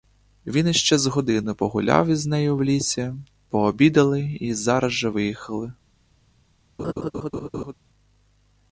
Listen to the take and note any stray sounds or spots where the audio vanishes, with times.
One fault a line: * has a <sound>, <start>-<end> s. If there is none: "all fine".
* has a laugh, 6.8-7.7 s